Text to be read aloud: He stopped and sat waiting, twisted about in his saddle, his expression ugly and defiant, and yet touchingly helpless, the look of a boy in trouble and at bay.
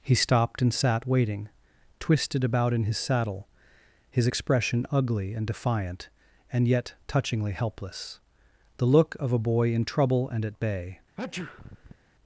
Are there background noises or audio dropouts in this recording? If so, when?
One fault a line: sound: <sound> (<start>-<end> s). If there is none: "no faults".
sound: sneeze (11.2-12.0 s)